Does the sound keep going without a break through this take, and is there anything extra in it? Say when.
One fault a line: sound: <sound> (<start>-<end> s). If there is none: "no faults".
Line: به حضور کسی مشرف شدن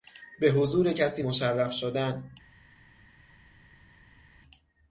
no faults